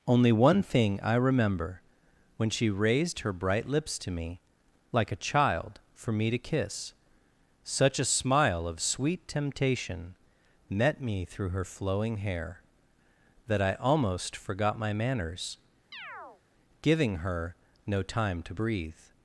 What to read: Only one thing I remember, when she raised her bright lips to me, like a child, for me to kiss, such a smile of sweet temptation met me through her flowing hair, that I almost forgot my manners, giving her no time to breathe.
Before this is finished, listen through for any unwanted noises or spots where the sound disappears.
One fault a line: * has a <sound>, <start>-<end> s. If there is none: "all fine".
* has a chirp, 15.9-16.4 s